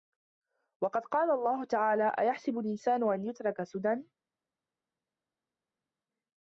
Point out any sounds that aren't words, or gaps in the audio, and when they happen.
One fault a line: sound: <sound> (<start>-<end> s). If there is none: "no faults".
no faults